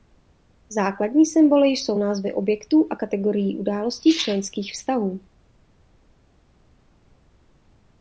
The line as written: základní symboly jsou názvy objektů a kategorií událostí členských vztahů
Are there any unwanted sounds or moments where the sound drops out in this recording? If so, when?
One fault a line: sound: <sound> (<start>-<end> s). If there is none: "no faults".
no faults